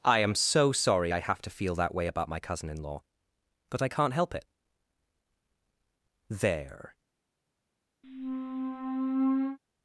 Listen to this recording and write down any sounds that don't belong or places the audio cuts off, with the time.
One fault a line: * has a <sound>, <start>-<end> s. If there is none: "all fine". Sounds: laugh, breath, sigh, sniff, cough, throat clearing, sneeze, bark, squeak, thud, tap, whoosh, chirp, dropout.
* has a squeak, 8.0-9.6 s